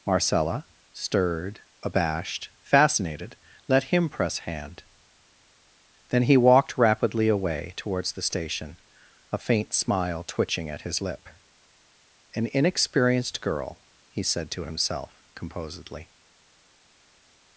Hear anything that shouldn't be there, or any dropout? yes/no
no